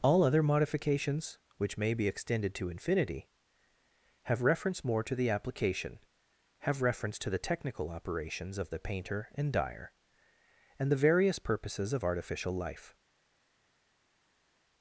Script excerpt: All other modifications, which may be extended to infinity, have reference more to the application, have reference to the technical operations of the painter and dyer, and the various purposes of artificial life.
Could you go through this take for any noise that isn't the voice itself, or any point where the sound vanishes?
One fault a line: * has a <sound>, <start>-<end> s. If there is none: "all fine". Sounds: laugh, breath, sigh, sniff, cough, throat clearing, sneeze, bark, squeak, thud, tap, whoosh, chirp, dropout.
all fine